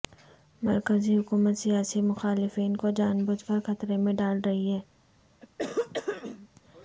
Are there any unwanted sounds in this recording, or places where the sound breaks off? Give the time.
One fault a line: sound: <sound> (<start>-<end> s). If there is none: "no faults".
sound: throat clearing (5.4-6.5 s)